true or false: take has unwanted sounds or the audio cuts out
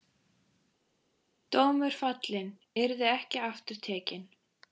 false